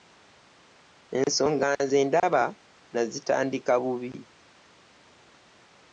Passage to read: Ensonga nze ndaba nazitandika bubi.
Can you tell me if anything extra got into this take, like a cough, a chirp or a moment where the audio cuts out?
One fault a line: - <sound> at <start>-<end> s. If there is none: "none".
none